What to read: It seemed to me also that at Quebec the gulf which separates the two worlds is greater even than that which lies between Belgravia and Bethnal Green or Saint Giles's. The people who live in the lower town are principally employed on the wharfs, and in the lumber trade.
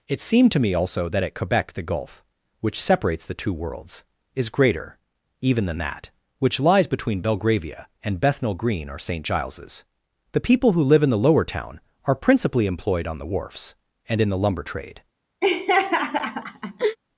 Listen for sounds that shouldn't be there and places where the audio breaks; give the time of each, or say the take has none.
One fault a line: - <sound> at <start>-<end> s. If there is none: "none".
- laugh at 15.4-17.0 s